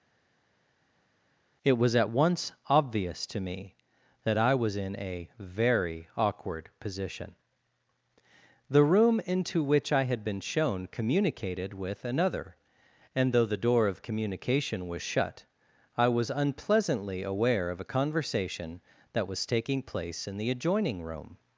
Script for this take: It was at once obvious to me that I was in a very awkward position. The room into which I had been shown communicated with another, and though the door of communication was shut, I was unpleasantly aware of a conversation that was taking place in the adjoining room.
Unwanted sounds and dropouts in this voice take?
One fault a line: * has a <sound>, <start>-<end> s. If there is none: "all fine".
all fine